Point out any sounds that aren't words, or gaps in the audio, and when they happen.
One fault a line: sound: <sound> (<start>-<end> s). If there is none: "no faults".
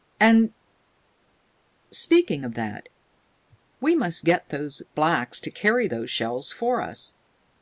no faults